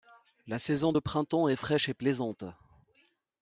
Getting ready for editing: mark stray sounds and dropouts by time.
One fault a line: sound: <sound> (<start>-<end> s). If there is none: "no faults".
no faults